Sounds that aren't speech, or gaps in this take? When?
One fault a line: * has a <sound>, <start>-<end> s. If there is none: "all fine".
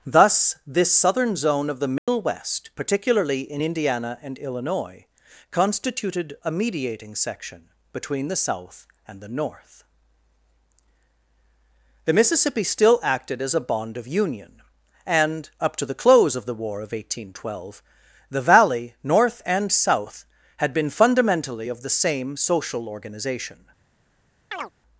* has a dropout, 2.0-2.1 s
* has a chirp, 24.5-24.7 s